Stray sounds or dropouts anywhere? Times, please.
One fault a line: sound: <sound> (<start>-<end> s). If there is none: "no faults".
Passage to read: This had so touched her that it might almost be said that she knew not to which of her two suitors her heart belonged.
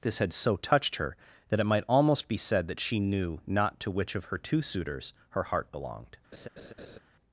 sound: laugh (6.3-7.0 s)